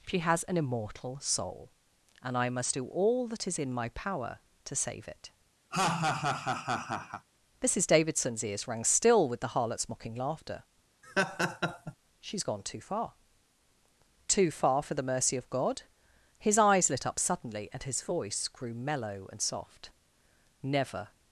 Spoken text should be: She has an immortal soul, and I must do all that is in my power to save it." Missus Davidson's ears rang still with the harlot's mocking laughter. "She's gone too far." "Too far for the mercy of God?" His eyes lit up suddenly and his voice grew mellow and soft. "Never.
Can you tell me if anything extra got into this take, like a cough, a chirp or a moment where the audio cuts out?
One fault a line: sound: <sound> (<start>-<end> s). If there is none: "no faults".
sound: laugh (5.7-7.3 s)
sound: laugh (11.0-11.9 s)